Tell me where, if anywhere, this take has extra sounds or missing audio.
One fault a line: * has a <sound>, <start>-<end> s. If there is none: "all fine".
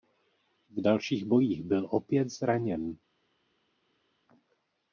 all fine